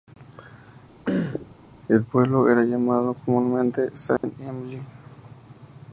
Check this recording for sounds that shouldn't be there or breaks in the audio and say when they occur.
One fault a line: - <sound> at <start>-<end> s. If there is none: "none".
- throat clearing at 1.1-1.6 s
- dropout at 4.2-4.2 s